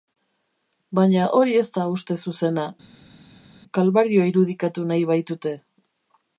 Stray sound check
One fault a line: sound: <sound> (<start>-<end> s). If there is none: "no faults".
no faults